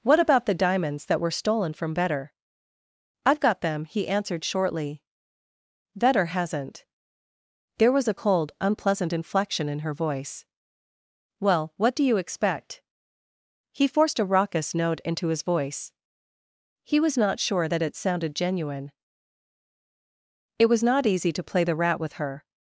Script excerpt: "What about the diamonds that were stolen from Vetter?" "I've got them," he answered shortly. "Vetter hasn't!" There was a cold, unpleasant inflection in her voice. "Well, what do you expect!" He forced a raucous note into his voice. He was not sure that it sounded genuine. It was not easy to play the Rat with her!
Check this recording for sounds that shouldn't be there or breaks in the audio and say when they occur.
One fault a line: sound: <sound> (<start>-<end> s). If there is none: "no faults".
no faults